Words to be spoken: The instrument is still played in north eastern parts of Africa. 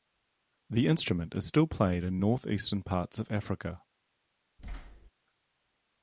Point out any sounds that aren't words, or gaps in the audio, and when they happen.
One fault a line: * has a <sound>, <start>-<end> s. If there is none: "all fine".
* has a thud, 4.6-5.1 s